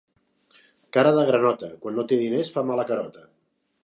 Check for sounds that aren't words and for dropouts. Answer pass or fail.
pass